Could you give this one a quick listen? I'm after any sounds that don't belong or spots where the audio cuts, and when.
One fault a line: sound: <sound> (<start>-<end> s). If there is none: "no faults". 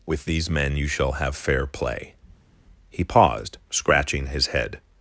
no faults